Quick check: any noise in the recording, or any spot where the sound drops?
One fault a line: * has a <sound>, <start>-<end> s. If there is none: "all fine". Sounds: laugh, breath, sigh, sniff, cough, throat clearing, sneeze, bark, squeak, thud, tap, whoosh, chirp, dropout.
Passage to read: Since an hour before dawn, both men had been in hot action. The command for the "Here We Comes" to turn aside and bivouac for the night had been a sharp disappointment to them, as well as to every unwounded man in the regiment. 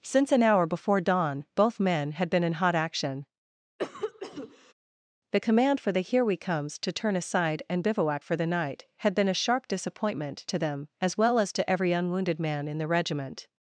* has a cough, 3.8-4.7 s